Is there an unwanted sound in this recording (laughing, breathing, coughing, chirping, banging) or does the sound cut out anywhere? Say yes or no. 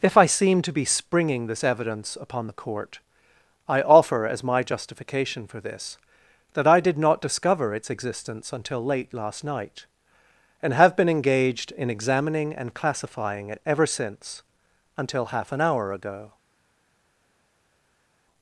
no